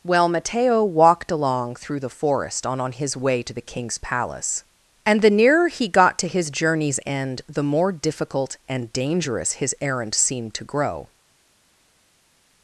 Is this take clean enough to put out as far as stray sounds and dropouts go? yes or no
yes